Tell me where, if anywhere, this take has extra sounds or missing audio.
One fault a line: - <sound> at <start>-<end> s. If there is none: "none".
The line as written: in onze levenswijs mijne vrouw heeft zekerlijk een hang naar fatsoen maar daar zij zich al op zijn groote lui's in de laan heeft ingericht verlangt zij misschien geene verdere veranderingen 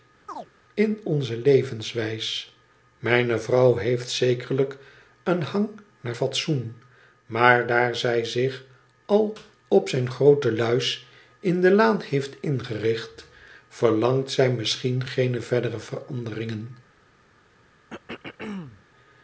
- chirp at 0.3-0.5 s
- throat clearing at 17.9-18.9 s